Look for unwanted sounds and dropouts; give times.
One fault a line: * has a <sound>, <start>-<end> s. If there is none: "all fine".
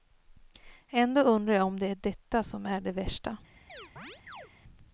* has a chirp, 3.7-4.5 s